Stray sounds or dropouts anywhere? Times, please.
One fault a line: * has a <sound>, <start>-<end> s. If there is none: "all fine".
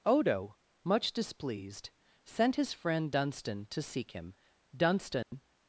* has a dropout, 5.2-5.3 s